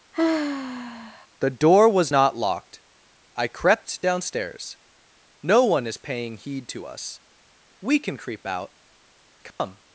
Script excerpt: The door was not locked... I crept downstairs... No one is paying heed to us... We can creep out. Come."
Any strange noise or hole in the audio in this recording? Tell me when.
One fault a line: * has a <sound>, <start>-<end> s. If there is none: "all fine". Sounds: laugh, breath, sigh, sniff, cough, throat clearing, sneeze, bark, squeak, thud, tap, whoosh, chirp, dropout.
* has a sigh, 0.1-1.3 s
* has a dropout, 9.5-9.6 s